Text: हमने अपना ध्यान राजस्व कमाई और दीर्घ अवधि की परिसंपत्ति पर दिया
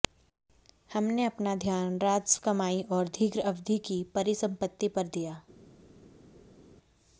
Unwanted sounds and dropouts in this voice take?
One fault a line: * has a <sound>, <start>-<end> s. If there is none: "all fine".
all fine